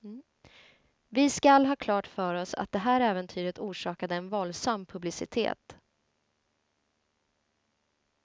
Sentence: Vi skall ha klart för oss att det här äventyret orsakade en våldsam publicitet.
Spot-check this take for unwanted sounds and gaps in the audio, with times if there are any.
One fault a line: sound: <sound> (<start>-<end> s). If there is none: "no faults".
no faults